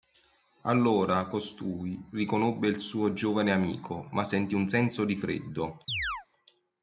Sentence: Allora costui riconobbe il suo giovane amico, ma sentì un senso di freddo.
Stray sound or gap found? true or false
true